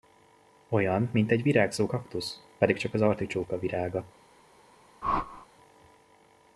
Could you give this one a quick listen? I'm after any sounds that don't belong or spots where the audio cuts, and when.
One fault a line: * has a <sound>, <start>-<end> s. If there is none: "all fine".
* has a whoosh, 5.0-5.5 s